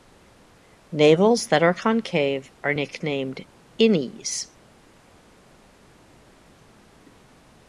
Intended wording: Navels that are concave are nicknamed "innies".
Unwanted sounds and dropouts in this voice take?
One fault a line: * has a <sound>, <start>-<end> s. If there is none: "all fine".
all fine